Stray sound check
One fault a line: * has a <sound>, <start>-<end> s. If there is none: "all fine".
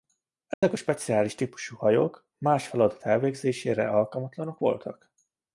* has a dropout, 0.5-0.6 s